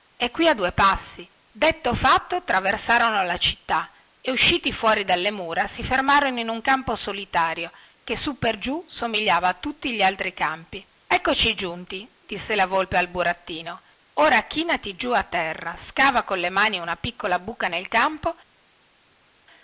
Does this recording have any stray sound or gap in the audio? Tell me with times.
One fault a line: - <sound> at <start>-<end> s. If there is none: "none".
none